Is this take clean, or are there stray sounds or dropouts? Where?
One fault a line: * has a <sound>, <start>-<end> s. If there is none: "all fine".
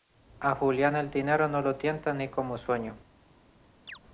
* has a chirp, 3.9-4.0 s